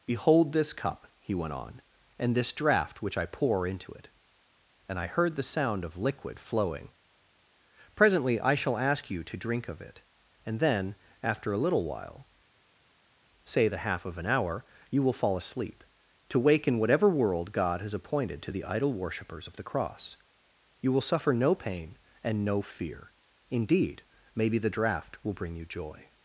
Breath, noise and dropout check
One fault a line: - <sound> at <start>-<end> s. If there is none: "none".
none